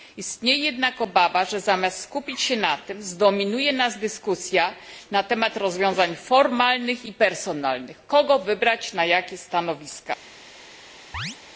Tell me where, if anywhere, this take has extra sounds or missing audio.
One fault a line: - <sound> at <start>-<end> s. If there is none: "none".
- chirp at 11.1-11.4 s